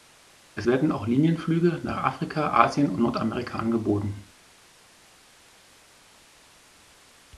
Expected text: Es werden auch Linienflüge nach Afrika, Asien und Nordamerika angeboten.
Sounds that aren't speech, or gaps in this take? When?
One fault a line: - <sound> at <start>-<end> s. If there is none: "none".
none